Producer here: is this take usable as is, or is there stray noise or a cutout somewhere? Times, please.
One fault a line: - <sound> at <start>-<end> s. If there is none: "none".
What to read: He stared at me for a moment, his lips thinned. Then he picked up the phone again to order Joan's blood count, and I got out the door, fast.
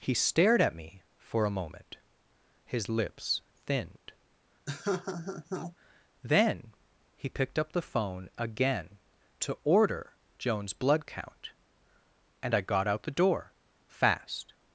- laugh at 4.7-5.8 s